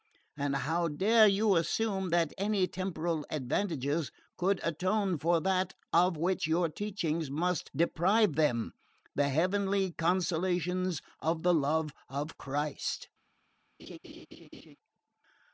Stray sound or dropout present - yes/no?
yes